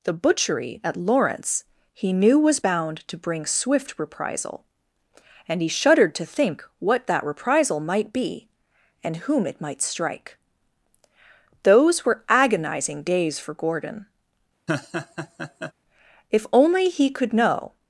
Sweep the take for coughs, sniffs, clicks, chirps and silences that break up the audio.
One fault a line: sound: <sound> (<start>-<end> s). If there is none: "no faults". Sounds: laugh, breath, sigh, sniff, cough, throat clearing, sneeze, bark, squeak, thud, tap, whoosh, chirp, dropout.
sound: laugh (14.7-15.7 s)